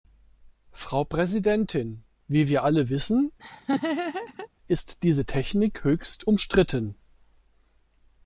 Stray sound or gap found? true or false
true